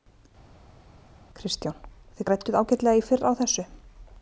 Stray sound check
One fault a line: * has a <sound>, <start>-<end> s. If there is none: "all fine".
all fine